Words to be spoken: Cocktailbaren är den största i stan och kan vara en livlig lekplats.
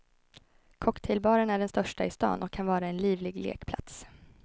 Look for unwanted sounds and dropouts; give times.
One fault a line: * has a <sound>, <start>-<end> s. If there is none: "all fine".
all fine